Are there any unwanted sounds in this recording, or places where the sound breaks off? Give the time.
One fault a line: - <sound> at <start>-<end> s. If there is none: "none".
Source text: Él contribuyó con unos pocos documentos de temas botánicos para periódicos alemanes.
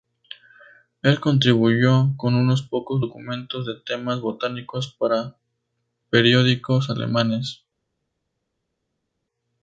none